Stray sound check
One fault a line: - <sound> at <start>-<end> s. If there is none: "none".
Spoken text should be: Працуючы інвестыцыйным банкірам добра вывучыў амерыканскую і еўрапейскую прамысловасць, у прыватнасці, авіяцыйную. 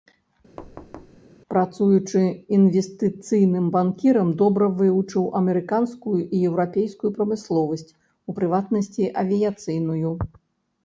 - thud at 0.6-1.2 s